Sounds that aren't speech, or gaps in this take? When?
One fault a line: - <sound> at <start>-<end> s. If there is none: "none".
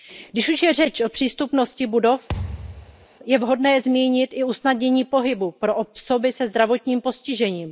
- thud at 2.3-3.1 s